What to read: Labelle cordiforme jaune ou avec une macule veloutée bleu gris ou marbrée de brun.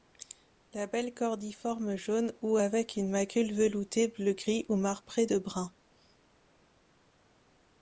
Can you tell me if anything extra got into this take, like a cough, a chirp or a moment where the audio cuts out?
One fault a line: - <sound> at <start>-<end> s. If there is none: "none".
none